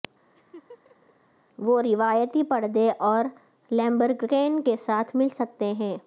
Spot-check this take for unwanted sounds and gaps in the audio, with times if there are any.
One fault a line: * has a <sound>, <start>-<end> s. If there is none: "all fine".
* has a laugh, 0.3-1.1 s